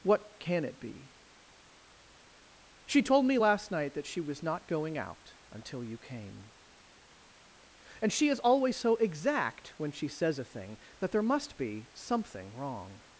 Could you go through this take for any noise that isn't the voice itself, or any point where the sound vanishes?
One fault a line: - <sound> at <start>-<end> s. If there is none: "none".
none